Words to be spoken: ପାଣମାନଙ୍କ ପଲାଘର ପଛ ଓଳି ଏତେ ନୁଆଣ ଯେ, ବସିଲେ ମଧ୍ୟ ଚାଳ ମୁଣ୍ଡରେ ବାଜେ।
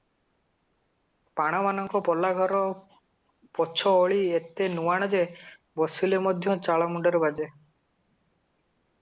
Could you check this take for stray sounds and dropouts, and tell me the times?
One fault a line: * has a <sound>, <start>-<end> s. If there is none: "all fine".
all fine